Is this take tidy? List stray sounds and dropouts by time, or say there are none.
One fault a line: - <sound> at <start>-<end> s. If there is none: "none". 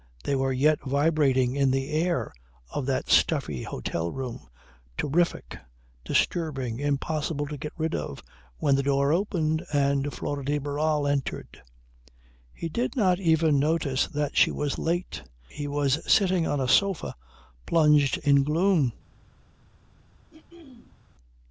- throat clearing at 20.3-21.0 s